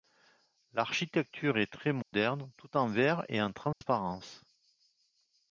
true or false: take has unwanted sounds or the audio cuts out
true